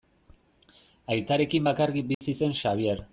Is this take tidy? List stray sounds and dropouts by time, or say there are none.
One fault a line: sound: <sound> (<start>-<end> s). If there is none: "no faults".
sound: dropout (2.1-2.2 s)